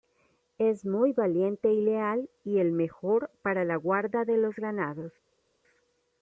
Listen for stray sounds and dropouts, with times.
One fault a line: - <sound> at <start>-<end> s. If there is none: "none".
none